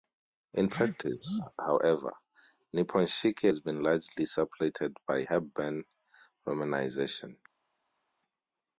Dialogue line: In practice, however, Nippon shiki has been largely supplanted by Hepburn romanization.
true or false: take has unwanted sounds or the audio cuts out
false